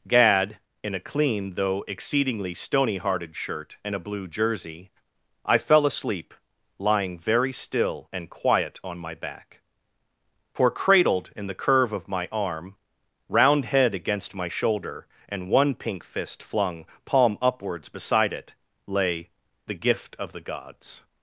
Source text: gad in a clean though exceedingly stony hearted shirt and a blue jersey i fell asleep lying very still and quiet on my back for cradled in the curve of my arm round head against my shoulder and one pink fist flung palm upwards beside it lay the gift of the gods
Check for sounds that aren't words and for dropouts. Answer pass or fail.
pass